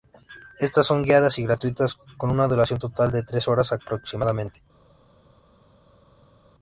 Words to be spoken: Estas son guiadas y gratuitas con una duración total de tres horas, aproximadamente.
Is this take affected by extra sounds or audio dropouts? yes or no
no